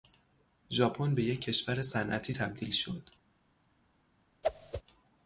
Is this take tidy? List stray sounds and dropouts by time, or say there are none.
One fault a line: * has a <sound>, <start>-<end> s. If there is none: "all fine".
* has a whoosh, 4.4-4.8 s